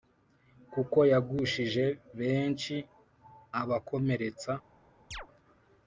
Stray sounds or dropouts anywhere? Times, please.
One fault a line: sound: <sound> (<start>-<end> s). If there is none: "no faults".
sound: chirp (5.1-5.3 s)